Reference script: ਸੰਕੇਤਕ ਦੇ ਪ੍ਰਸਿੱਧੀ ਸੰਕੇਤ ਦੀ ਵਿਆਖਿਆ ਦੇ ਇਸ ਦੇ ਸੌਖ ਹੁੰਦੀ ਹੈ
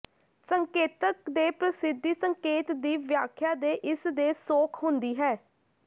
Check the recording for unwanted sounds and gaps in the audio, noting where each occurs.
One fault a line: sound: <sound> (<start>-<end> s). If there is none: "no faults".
no faults